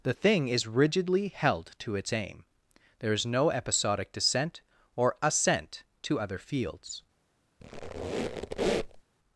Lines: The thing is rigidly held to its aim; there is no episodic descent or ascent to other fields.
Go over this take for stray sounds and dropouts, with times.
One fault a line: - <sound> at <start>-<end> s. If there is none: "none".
- squeak at 7.6-9.0 s